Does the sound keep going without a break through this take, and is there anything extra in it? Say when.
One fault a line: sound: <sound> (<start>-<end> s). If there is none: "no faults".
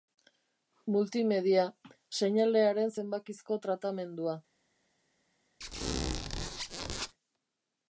sound: squeak (5.6-7.1 s)